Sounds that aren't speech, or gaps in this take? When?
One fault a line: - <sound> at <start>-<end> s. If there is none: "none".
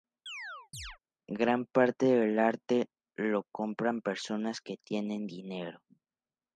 - chirp at 0.3-1.0 s